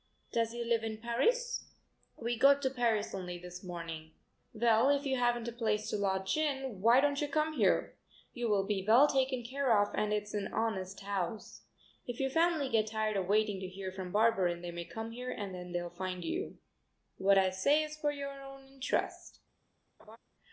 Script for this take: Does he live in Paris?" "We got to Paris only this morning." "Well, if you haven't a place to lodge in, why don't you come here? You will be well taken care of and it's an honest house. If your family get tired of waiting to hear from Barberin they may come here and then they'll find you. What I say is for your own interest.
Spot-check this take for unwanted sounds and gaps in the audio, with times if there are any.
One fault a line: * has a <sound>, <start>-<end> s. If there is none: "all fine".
* has a laugh, 20.0-20.2 s